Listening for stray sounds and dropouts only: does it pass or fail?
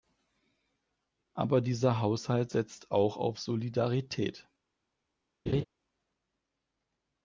fail